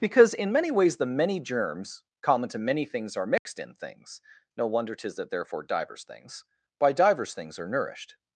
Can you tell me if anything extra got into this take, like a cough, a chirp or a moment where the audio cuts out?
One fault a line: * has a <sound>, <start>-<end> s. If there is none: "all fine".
* has a dropout, 3.4-3.5 s